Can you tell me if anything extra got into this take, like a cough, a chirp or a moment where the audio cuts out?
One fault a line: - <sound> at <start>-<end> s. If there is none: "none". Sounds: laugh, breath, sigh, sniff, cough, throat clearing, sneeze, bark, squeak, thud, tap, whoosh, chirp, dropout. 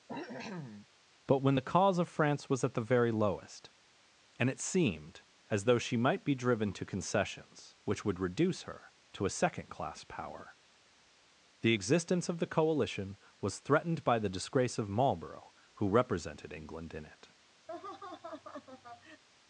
- cough at 0.1-0.9 s
- laugh at 17.7-19.2 s